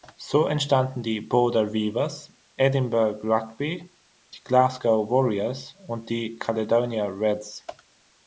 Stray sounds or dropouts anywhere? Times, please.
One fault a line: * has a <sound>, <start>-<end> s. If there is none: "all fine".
all fine